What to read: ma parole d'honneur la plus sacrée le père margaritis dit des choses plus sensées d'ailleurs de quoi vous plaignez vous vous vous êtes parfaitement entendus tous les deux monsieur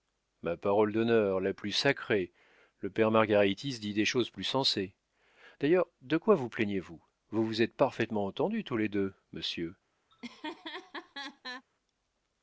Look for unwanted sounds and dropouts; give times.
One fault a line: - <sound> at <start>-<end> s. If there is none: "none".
- laugh at 10.1-11.7 s